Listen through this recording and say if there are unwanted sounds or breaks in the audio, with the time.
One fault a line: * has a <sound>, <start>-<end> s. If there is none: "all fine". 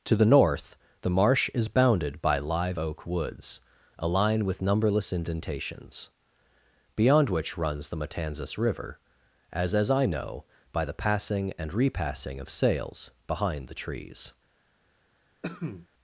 * has a cough, 15.4-15.9 s